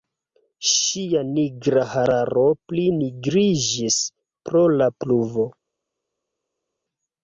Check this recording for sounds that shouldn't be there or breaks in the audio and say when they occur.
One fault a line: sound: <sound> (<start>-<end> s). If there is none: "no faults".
no faults